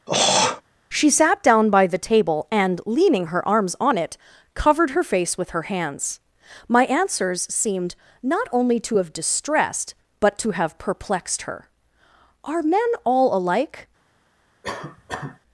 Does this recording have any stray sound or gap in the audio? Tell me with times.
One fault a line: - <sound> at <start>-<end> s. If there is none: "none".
- throat clearing at 0.1-0.6 s
- cough at 14.6-15.4 s